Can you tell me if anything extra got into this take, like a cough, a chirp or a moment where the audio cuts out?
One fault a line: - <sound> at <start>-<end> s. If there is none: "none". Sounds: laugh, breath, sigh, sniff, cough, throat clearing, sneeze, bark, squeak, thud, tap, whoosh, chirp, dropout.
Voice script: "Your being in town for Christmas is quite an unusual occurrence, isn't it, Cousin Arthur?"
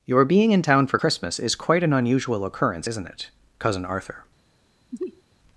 - sneeze at 4.9-5.2 s